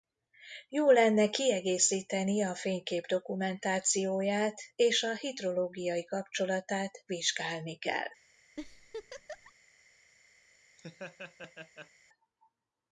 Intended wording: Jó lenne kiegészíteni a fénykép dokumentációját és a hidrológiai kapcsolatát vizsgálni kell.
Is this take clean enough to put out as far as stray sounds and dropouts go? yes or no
no